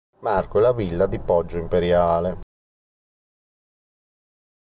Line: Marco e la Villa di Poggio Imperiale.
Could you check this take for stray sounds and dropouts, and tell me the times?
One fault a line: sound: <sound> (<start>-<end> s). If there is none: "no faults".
no faults